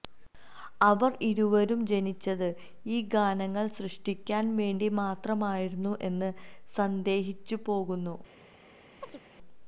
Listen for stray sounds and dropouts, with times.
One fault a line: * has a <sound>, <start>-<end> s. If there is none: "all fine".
* has a chirp, 9.0-9.2 s